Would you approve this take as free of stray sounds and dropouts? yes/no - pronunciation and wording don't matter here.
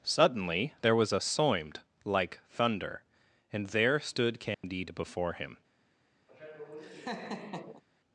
no